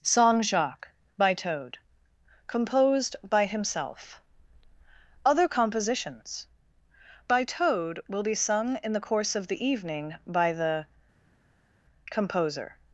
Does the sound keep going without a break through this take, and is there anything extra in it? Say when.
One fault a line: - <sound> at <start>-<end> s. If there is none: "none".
none